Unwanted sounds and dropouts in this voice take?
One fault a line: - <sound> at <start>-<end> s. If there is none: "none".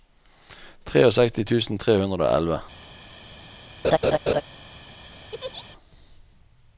- laugh at 3.8-4.4 s
- laugh at 5.3-5.7 s